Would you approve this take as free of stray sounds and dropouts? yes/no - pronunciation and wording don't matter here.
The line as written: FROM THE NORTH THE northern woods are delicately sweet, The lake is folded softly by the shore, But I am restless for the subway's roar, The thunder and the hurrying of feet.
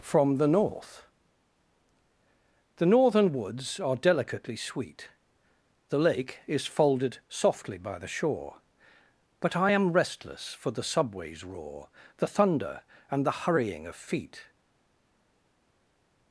yes